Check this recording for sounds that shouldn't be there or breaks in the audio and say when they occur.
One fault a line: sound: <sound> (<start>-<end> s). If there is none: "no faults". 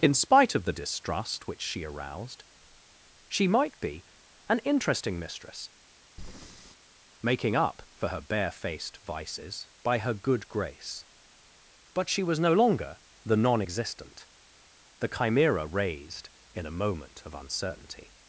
sound: breath (6.2-6.8 s)